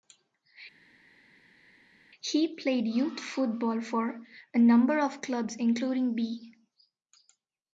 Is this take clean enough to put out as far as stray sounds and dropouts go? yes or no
yes